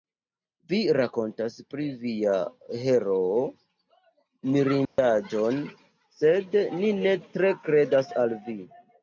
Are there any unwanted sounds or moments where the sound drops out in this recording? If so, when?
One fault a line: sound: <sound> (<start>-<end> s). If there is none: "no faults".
sound: dropout (4.9-5.0 s)